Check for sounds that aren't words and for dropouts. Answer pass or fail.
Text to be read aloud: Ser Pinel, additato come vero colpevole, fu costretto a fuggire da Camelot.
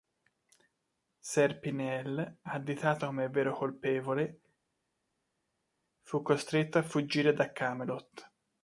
pass